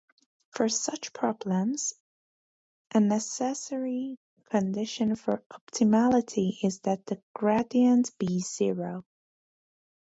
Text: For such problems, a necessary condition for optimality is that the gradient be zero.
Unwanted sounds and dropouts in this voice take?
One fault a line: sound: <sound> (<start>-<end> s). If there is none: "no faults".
no faults